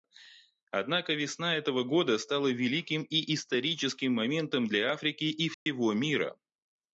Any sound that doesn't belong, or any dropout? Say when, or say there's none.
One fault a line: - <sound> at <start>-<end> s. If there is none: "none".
- dropout at 5.5-5.7 s